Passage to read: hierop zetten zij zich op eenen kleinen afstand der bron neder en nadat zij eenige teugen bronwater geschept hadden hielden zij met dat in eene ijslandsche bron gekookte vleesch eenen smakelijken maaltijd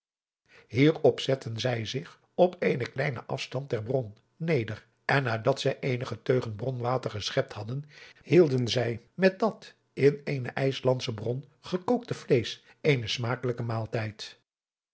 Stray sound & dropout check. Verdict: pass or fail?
pass